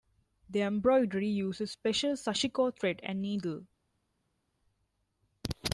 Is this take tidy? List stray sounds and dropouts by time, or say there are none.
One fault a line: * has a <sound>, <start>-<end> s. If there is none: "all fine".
all fine